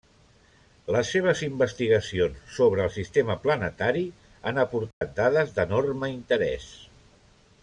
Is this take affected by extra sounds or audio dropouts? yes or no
yes